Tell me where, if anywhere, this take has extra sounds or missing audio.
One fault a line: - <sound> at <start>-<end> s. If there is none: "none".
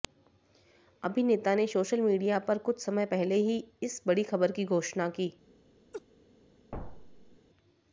- laugh at 5.9-6.0 s
- thud at 6.7-7.4 s